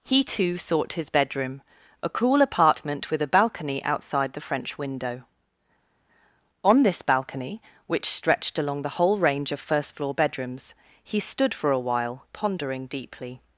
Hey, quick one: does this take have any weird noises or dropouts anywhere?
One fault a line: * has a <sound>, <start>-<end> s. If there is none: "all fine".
all fine